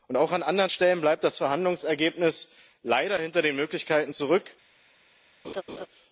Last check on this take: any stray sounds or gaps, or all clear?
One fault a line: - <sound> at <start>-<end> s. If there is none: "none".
- laugh at 5.4-5.9 s